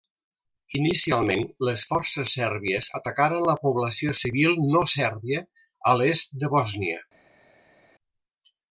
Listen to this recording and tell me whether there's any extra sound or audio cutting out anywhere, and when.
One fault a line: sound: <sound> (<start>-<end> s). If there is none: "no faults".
no faults